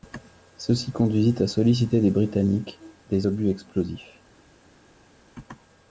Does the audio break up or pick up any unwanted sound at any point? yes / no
no